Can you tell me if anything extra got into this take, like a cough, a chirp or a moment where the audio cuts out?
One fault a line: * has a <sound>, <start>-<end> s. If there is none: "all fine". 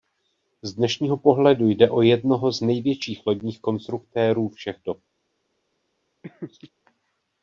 * has a laugh, 6.2-6.7 s